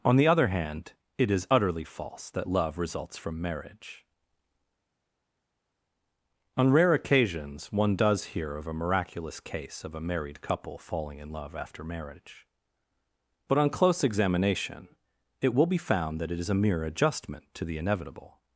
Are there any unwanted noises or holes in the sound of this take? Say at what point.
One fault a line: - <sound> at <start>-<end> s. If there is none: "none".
none